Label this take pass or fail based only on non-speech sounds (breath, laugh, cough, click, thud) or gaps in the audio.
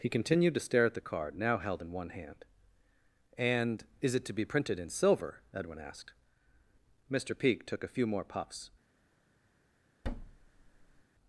fail